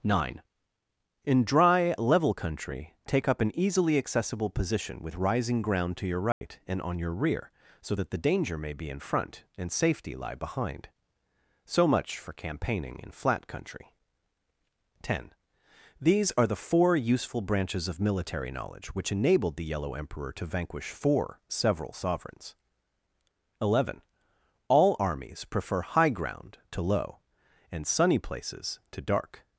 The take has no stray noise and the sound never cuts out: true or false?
false